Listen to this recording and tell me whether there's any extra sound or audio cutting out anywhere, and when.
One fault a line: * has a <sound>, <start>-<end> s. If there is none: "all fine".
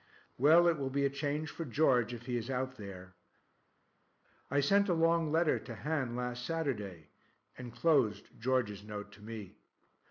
all fine